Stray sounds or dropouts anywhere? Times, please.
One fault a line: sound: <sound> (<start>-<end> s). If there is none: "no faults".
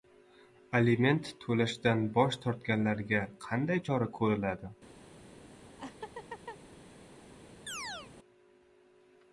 sound: laugh (5.8-6.6 s)
sound: chirp (7.7-8.1 s)